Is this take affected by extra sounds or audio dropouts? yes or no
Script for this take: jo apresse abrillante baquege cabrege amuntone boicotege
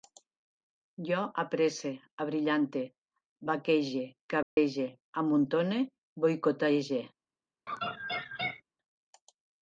yes